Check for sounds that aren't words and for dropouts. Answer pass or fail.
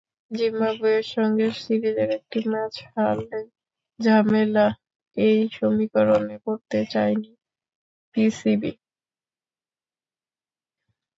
pass